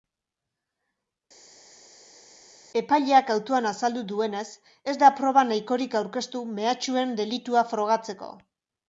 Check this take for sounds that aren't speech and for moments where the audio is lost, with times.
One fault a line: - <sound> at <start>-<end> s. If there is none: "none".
none